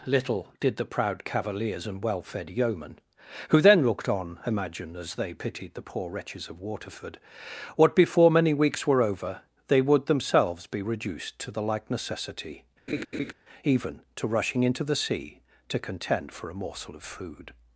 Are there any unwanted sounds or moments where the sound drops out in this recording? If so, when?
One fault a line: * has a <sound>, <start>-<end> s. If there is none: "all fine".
* has a laugh, 12.9-13.3 s